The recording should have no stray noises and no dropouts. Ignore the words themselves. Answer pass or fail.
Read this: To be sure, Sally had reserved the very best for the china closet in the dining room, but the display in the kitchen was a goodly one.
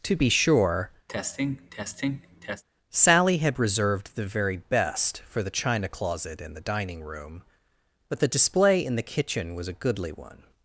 fail